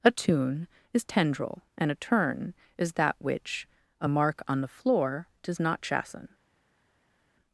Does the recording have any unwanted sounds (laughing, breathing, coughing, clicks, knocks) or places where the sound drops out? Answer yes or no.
no